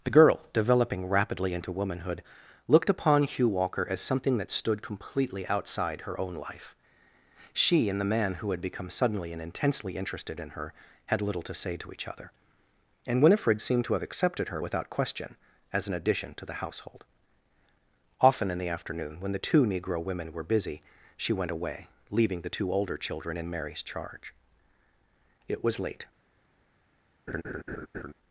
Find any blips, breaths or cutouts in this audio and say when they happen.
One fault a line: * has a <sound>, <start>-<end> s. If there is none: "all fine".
* has a laugh, 27.3-28.1 s